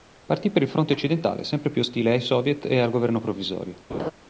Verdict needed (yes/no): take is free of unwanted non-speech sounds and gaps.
no